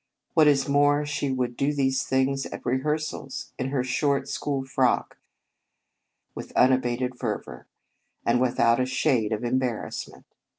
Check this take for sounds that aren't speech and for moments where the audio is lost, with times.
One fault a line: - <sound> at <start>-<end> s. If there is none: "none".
none